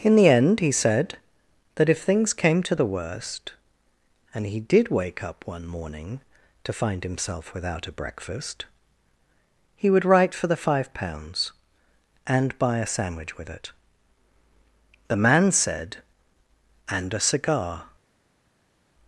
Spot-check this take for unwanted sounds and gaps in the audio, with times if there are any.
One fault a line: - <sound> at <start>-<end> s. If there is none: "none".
none